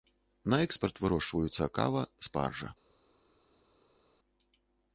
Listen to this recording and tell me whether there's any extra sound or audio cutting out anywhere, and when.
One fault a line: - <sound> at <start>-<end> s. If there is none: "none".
none